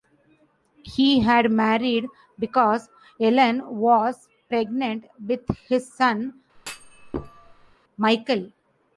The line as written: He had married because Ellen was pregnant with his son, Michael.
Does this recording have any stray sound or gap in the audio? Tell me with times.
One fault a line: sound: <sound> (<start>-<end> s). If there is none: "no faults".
sound: thud (6.6-7.8 s)